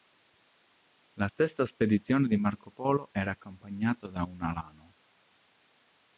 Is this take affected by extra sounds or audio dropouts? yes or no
no